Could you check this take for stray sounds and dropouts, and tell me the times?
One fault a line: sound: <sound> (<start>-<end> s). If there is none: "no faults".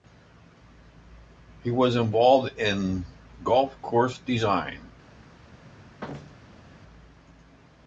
sound: thud (6.0-6.7 s)